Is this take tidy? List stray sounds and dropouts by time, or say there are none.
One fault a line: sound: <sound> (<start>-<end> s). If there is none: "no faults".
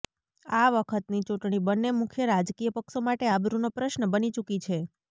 no faults